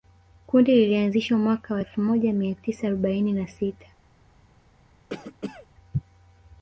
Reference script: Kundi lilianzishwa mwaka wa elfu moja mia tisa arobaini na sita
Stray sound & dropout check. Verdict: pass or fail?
fail